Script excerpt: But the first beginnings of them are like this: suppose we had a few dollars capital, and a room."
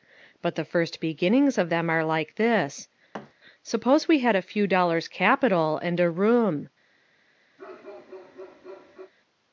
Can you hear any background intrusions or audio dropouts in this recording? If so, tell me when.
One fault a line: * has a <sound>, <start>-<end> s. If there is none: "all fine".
* has a thud, 3.1-3.3 s
* has a bark, 7.6-9.1 s